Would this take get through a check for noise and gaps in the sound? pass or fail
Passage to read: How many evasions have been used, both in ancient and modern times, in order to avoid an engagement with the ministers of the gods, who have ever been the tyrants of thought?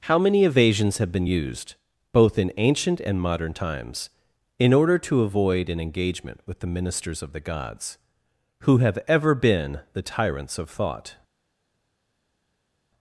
pass